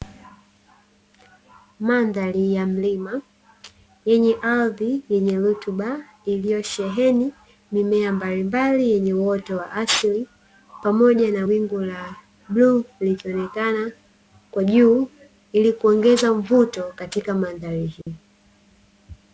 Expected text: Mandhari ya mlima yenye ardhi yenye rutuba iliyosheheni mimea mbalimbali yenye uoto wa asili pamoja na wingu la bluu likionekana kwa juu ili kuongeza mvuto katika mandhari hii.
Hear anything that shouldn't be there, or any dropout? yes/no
yes